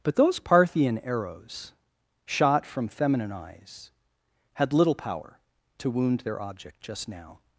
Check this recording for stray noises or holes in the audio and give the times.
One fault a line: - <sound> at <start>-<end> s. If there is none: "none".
none